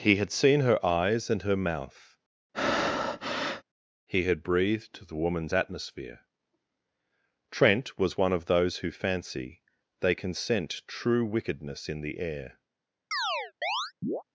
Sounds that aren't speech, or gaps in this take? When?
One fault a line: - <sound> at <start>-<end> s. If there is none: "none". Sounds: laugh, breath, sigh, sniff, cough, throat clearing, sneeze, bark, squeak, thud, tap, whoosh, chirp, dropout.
- breath at 2.5-3.6 s
- chirp at 13.1-14.2 s